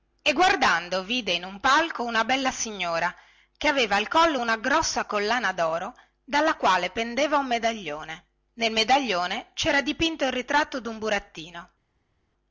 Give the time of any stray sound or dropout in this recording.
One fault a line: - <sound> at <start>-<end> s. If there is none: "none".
none